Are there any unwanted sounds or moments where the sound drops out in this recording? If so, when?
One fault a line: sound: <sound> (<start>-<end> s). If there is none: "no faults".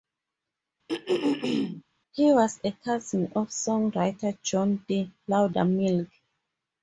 sound: throat clearing (0.9-1.8 s)